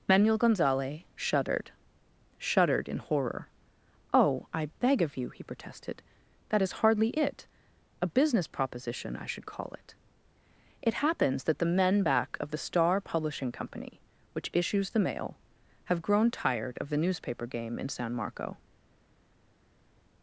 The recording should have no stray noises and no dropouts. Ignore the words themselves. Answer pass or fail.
pass